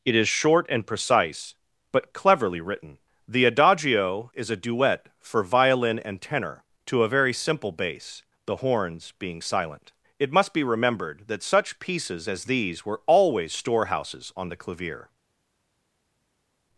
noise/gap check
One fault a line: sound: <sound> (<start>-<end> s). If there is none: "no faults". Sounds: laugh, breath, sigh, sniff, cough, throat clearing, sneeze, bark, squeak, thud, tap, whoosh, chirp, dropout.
no faults